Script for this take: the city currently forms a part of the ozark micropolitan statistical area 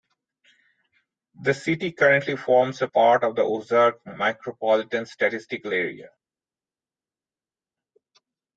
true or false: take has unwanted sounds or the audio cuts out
false